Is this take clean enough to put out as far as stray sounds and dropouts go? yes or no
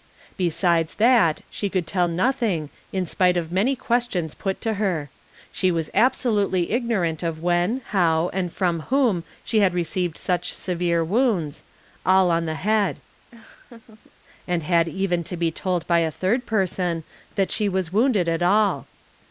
no